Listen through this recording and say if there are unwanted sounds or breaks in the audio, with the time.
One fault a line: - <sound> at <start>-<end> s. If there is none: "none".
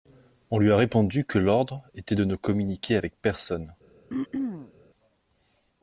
- throat clearing at 4.1-4.7 s